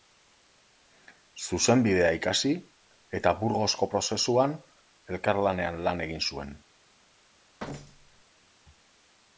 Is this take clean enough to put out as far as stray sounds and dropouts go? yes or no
no